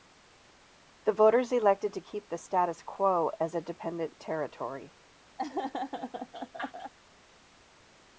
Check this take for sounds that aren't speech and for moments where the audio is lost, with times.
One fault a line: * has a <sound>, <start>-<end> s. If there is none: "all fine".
* has a laugh, 5.4-6.9 s